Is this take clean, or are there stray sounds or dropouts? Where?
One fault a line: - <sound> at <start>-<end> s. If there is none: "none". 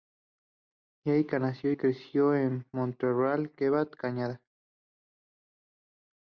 none